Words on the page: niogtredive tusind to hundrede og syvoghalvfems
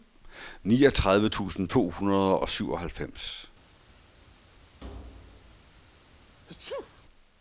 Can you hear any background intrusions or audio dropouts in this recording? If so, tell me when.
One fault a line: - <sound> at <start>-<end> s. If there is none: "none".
- thud at 4.8-5.8 s
- sneeze at 6.5-7.0 s